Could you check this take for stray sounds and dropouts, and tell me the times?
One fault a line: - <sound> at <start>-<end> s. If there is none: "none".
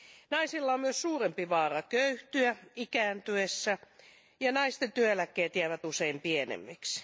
none